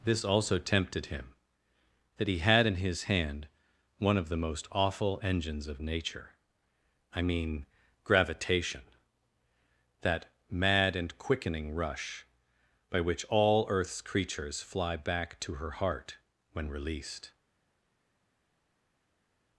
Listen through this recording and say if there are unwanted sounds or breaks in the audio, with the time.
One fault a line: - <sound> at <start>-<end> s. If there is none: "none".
none